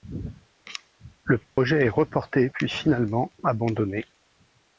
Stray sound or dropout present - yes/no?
yes